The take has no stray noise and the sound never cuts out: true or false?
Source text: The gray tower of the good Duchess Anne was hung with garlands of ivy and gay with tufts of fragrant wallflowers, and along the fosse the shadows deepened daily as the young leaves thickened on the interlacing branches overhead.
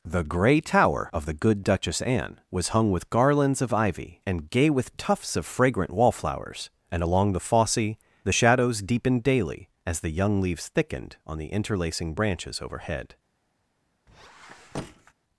false